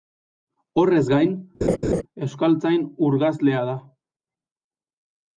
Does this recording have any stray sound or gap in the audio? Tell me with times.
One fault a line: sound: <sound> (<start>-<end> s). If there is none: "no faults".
sound: laugh (1.6-2.0 s)